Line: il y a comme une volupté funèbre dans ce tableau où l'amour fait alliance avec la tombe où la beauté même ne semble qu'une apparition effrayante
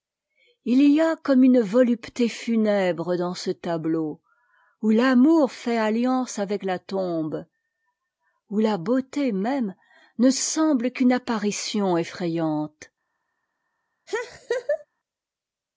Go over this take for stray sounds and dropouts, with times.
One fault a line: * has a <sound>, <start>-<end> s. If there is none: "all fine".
* has a laugh, 14.1-14.9 s